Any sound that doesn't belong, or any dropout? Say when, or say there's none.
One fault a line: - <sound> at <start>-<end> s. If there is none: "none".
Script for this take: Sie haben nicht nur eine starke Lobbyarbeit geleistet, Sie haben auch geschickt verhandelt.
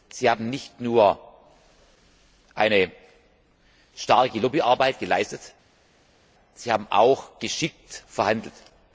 none